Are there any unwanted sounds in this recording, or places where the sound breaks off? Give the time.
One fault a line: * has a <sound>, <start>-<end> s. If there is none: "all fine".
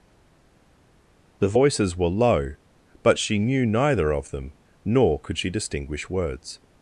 all fine